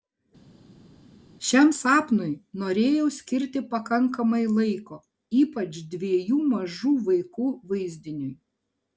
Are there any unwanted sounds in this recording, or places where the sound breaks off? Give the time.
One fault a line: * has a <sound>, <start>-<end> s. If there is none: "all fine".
all fine